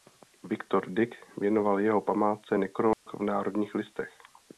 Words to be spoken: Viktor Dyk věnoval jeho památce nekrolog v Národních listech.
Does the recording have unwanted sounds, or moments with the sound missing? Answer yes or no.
yes